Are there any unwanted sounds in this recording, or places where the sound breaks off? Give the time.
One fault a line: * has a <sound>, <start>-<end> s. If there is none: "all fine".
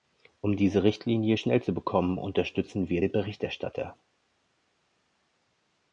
all fine